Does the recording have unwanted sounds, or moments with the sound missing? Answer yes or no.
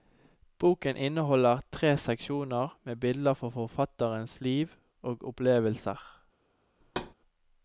yes